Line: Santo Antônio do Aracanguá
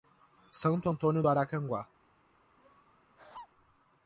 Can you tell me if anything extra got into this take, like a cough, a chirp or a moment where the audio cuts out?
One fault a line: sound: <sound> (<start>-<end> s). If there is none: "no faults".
sound: laugh (2.6-3.5 s)